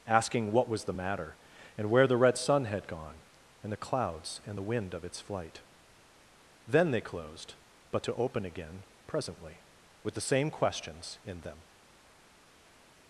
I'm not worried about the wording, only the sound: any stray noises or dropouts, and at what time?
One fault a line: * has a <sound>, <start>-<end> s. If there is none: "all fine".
all fine